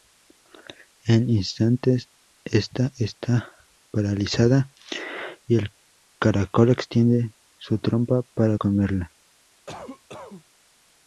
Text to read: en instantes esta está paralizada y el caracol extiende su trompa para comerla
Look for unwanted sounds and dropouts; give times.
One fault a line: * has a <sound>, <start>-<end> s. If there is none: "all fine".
* has a cough, 9.7-10.5 s